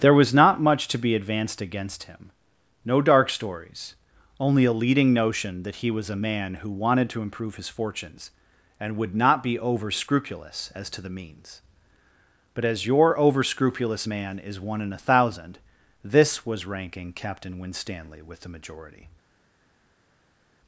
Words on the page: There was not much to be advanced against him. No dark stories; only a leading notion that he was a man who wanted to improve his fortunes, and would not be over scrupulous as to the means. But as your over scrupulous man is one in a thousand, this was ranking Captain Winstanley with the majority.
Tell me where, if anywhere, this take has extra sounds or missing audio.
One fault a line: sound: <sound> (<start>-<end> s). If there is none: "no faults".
no faults